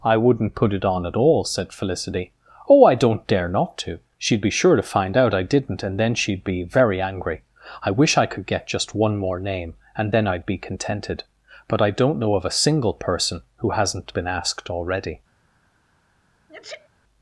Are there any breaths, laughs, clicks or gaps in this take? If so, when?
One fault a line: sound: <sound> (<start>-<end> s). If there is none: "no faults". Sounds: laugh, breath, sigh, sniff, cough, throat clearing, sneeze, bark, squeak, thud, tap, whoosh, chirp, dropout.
sound: sneeze (16.5-16.9 s)